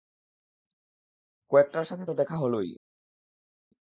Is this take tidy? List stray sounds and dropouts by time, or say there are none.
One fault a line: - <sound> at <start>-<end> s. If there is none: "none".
none